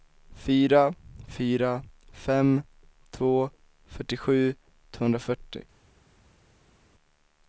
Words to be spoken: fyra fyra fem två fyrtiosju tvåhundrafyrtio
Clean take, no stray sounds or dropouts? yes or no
yes